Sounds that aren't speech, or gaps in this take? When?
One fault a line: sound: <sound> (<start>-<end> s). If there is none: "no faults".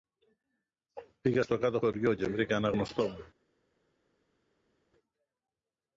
no faults